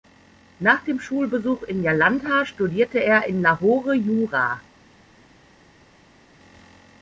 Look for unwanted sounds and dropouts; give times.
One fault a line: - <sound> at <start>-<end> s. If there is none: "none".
none